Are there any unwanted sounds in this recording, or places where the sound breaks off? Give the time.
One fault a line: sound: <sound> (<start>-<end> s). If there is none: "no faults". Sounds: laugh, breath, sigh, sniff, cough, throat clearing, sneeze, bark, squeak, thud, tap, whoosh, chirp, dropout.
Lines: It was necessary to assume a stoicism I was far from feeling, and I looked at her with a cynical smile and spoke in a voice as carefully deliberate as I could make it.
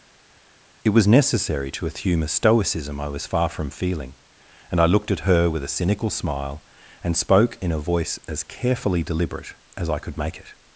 no faults